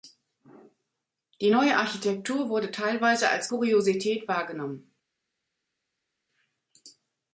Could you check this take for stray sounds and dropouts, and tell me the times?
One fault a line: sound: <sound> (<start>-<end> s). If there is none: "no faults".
no faults